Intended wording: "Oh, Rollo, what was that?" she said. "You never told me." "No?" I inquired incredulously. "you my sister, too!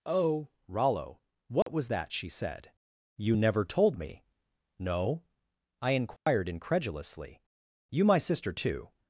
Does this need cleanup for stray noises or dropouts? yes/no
yes